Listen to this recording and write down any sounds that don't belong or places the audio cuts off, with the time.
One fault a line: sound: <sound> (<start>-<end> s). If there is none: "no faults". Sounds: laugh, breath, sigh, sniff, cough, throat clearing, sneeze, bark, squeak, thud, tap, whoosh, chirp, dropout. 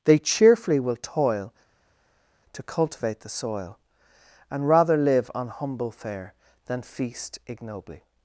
no faults